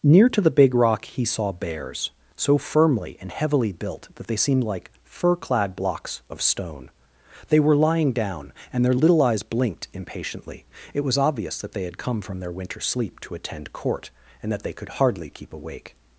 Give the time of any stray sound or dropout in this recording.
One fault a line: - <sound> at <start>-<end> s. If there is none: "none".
none